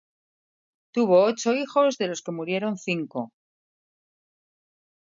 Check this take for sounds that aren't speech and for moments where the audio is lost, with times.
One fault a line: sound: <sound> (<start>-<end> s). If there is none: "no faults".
no faults